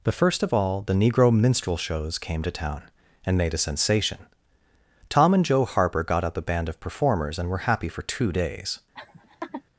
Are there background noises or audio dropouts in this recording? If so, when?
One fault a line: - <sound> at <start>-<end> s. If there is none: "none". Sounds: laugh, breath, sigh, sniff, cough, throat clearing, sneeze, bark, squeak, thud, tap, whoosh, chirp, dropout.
- laugh at 8.9-9.6 s